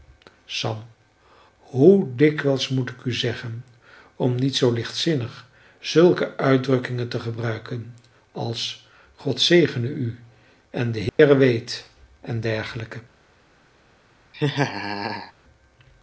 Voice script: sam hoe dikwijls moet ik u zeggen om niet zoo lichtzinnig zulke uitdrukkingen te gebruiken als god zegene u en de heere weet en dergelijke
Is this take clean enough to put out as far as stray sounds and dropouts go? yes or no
no